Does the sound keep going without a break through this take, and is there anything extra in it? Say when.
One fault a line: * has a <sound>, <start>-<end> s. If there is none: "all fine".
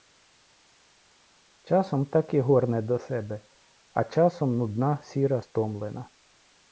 all fine